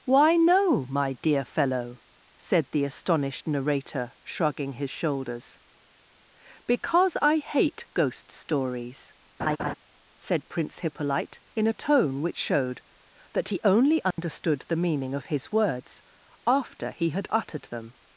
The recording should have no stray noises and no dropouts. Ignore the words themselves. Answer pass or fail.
fail